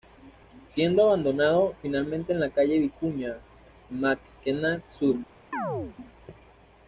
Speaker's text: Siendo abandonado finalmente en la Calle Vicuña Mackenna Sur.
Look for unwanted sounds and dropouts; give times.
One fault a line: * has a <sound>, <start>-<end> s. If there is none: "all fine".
* has a chirp, 5.5-6.0 s